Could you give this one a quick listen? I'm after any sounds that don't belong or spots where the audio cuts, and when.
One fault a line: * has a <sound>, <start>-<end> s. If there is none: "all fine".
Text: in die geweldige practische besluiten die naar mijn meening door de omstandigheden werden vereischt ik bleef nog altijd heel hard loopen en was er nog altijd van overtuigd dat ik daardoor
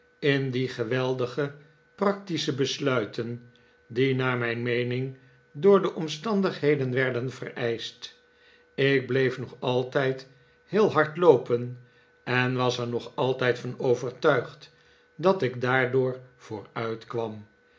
all fine